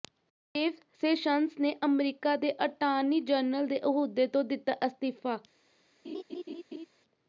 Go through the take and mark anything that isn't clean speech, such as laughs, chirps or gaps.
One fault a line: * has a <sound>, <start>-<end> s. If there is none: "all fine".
* has a laugh, 6.0-6.9 s